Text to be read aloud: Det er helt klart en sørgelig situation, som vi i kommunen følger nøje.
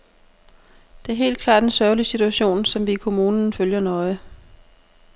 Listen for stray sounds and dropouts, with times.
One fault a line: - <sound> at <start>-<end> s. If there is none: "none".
none